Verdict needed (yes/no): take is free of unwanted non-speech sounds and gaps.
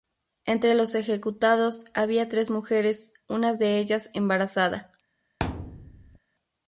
no